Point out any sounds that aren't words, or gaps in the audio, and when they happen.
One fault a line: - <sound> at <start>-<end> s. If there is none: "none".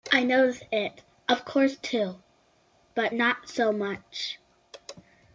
none